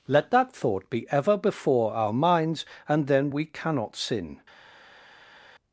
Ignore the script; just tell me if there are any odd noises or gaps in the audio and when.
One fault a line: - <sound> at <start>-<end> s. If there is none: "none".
none